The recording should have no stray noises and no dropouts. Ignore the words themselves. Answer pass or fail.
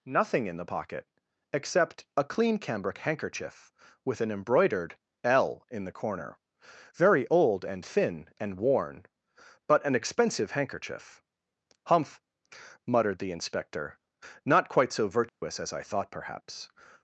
fail